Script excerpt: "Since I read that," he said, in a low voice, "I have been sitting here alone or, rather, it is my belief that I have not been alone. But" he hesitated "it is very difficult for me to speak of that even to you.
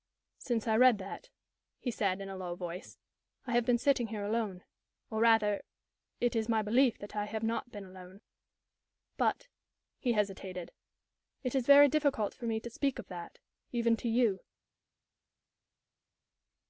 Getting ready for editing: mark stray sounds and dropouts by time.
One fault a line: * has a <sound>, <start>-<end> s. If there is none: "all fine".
all fine